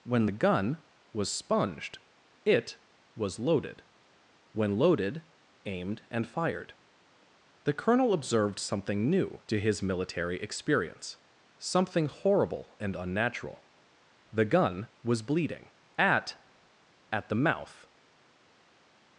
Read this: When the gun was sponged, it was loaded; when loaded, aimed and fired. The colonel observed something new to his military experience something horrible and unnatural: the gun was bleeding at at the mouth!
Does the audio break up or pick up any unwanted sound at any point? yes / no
no